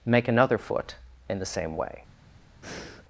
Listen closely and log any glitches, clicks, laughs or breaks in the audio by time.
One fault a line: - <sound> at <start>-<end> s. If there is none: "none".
- breath at 2.6-3.0 s